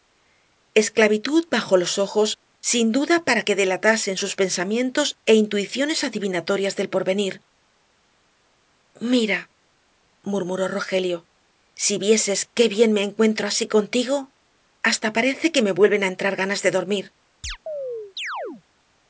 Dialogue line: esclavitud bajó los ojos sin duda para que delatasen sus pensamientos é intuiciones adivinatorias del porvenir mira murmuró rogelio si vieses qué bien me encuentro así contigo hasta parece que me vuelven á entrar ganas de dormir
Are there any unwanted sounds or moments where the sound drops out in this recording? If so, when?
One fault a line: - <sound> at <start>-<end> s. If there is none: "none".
- chirp at 17.4-18.6 s